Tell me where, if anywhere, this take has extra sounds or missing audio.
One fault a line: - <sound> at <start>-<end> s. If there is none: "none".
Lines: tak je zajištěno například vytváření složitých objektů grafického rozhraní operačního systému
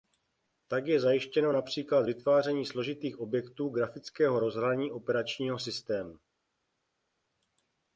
none